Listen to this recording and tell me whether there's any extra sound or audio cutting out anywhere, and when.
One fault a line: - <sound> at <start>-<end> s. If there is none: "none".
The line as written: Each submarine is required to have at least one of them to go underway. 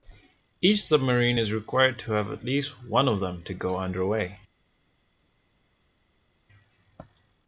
none